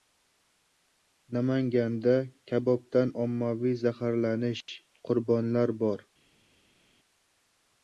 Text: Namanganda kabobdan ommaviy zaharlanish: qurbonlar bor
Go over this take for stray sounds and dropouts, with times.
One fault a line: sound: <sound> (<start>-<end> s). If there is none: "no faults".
no faults